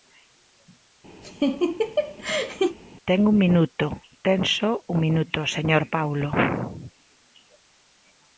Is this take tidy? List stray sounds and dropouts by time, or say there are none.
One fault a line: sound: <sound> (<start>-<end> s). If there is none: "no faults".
sound: laugh (1.2-2.8 s)